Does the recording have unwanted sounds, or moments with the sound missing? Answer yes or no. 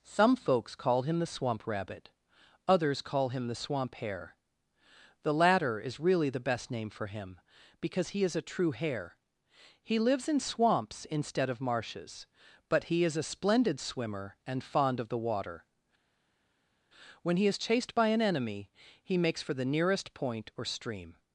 no